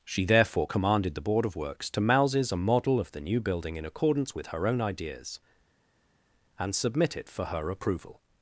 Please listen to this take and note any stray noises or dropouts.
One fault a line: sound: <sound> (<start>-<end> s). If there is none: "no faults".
no faults